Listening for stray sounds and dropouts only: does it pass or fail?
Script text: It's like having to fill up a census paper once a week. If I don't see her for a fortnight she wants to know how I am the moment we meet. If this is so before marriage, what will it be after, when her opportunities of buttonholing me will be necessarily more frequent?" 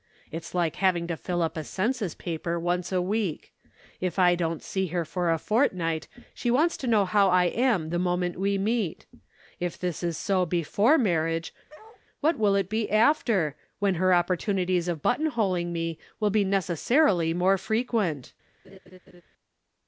fail